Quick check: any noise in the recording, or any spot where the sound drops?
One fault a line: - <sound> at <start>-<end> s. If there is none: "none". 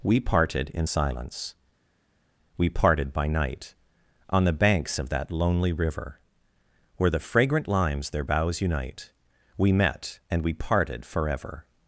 none